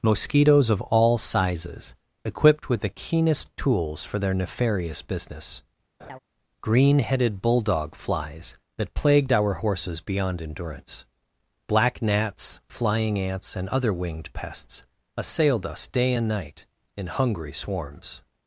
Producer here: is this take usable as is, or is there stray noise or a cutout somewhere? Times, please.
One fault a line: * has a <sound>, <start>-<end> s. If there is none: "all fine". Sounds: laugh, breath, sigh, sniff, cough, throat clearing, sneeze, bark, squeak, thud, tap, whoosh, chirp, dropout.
* has a laugh, 6.0-6.2 s